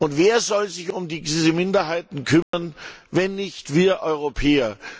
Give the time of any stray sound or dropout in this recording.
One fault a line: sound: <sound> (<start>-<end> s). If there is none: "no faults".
sound: dropout (2.4-2.5 s)